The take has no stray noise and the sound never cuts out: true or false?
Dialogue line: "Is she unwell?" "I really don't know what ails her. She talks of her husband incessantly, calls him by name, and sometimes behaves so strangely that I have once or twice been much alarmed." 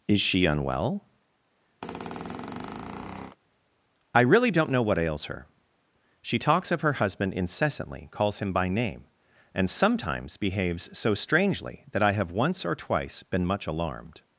false